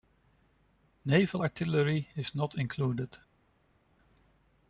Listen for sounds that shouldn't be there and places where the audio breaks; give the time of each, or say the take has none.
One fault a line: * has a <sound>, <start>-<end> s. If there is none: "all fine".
all fine